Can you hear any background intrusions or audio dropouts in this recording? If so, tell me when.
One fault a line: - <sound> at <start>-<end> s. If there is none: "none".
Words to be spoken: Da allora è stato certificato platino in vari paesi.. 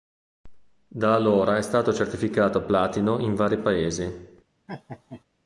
- laugh at 4.7-5.2 s